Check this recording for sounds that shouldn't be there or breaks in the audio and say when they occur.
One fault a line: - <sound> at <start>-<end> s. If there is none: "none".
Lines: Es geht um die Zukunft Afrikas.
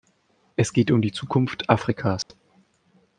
- dropout at 2.2-2.3 s